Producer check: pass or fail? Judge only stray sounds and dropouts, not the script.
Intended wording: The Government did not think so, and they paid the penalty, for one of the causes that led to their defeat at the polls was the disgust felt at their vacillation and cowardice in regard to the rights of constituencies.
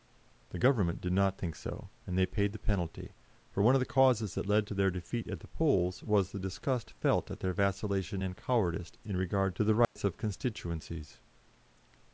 fail